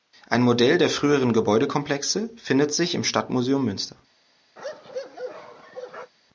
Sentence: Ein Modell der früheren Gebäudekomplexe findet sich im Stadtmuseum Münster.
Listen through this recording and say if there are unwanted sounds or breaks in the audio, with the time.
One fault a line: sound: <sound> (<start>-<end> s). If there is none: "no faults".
sound: bark (4.6-6.1 s)